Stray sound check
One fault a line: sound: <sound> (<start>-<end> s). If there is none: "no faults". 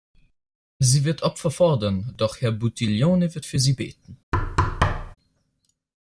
sound: thud (4.3-5.2 s)